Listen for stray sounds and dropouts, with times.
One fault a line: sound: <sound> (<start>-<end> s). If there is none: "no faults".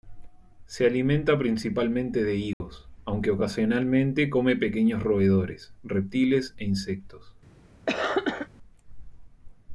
sound: dropout (2.5-2.6 s)
sound: cough (7.9-8.5 s)